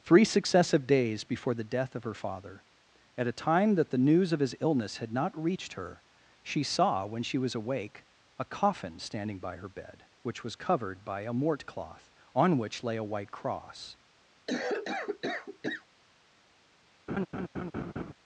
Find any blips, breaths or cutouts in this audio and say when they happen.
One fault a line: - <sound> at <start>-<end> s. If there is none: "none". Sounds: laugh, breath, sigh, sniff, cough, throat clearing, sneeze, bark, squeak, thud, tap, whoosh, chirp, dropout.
- cough at 14.5-15.9 s
- laugh at 17.1-18.1 s